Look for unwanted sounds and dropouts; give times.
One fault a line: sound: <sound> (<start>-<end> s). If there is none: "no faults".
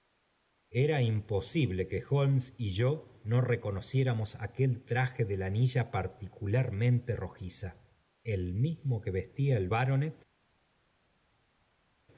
no faults